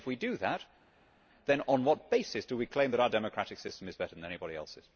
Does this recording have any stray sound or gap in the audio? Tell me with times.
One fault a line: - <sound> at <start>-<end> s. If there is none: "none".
none